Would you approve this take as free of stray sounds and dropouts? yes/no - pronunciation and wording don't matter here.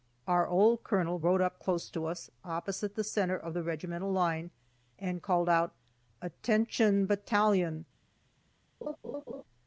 no